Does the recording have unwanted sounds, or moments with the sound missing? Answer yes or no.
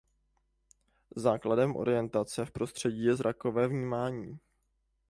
no